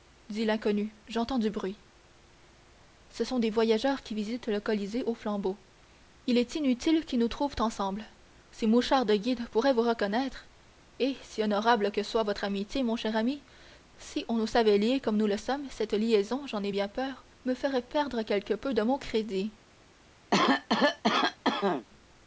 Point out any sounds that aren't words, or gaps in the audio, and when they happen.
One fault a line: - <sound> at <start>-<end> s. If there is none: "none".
- cough at 20.3-21.9 s